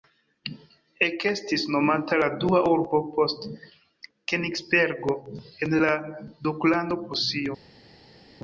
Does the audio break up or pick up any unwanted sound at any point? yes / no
no